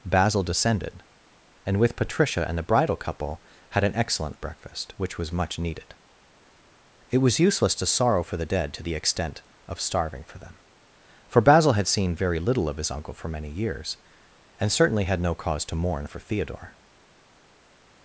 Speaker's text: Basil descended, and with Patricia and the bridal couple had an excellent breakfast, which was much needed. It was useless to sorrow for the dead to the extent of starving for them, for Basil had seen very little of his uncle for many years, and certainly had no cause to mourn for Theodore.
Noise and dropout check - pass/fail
pass